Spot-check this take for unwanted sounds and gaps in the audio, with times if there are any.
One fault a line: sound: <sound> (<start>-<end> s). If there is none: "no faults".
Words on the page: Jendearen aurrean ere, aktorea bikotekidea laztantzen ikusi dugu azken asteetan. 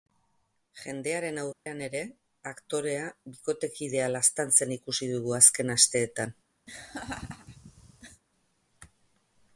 sound: dropout (1.5-1.7 s)
sound: laugh (6.7-8.2 s)